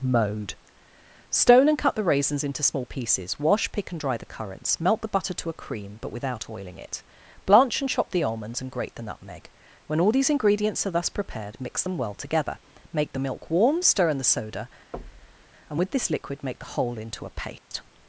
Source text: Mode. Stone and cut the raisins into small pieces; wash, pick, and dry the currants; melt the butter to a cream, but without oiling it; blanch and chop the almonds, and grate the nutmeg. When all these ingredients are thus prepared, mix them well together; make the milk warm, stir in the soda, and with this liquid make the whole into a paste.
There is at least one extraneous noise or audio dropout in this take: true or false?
true